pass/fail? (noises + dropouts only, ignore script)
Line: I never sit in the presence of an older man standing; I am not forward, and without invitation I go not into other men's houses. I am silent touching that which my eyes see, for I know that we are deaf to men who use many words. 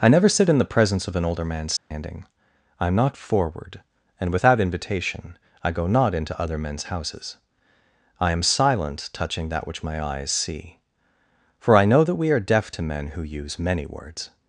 fail